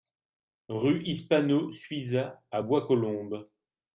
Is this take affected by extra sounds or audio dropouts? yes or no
no